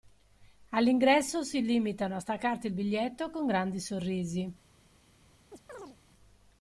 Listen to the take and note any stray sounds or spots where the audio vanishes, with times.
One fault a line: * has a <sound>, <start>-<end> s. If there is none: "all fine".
* has a chirp, 5.5-6.0 s